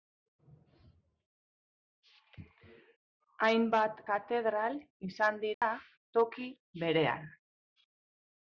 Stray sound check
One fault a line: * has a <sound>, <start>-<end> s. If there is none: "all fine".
* has a dropout, 5.5-5.6 s